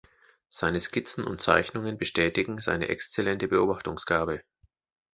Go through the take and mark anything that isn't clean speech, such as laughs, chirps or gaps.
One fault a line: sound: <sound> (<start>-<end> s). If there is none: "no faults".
no faults